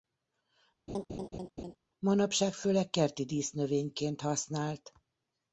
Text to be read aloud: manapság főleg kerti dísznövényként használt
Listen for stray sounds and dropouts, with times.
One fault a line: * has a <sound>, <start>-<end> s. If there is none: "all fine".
* has a laugh, 0.9-1.8 s